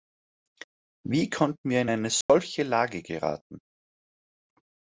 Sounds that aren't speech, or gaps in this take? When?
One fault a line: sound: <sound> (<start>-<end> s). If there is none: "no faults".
sound: dropout (2.2-2.3 s)